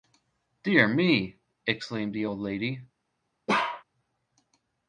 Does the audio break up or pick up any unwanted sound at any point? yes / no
yes